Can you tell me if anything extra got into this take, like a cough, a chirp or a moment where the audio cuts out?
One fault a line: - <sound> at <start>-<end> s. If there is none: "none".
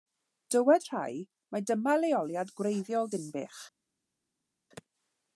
none